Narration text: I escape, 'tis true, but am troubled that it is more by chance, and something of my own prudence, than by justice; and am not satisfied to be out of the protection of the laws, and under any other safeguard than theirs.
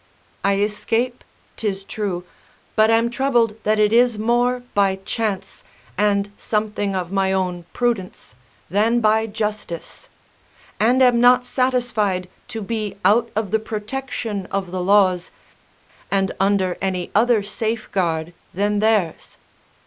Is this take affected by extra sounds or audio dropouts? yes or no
no